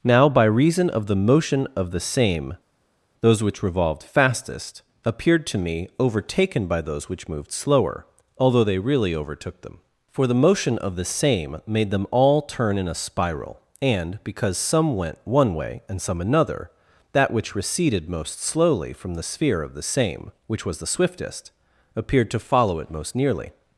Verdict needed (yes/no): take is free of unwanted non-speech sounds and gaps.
yes